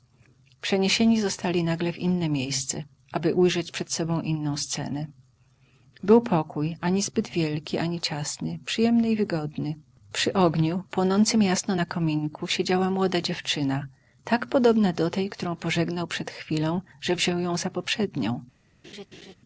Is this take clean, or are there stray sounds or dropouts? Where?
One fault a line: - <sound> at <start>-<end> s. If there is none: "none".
- laugh at 18.8-19.3 s